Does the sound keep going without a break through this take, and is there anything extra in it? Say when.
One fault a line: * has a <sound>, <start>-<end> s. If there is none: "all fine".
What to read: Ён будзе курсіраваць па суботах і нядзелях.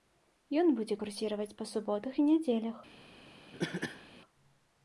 * has a cough, 3.5-4.1 s